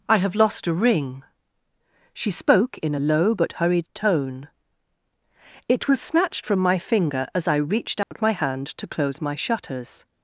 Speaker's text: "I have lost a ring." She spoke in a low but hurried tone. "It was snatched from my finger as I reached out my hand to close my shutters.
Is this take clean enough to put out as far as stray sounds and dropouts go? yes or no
no